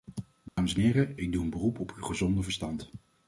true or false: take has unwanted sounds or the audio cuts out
true